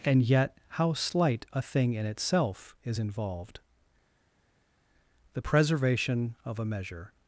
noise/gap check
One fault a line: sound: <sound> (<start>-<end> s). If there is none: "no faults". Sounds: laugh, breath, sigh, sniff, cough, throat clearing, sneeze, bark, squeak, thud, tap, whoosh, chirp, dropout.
no faults